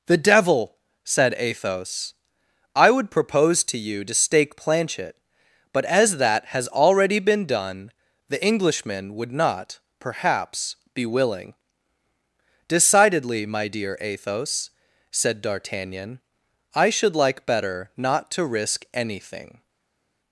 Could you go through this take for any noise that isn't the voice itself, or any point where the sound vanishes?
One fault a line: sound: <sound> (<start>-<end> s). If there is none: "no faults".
no faults